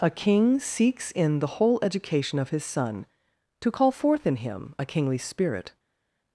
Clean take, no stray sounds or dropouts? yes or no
yes